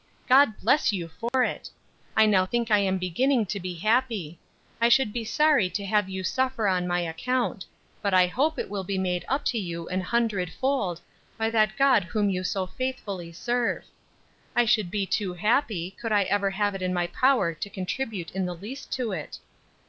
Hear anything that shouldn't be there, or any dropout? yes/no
yes